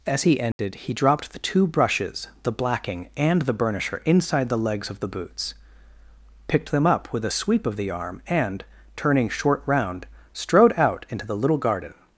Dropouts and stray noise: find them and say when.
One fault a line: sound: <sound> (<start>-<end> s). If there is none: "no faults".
sound: dropout (0.5-0.6 s)